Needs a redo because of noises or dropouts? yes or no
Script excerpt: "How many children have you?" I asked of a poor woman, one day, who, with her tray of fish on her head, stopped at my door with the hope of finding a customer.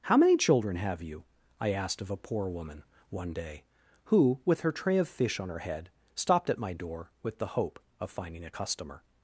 no